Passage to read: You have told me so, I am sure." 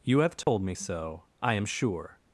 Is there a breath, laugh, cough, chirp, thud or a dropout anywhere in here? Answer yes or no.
yes